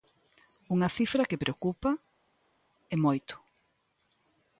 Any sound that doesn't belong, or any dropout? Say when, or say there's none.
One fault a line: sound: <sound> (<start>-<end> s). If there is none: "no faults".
no faults